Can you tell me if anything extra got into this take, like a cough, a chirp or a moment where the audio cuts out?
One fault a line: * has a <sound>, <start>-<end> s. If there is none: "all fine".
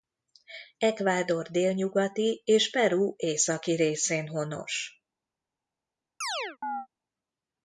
* has a chirp, 6.2-6.9 s